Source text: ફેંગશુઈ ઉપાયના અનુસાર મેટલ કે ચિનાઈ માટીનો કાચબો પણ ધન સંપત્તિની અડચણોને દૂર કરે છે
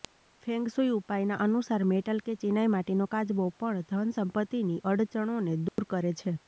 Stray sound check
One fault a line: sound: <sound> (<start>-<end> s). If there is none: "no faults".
sound: dropout (5.7-5.8 s)